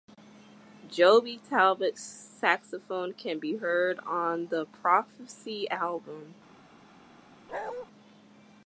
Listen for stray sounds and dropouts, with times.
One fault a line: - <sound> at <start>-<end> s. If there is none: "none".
- bark at 7.5-7.9 s